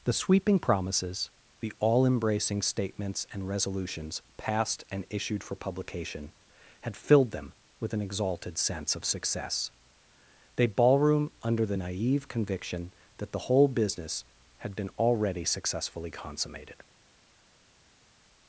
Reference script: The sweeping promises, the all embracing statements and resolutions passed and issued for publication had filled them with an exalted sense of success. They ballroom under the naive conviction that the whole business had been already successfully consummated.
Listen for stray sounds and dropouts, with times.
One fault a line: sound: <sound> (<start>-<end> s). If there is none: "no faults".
no faults